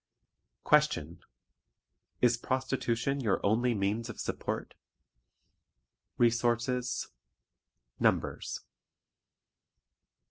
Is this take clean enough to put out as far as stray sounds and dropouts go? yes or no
yes